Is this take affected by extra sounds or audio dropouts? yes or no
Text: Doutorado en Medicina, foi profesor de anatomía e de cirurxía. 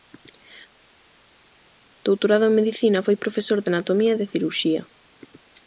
no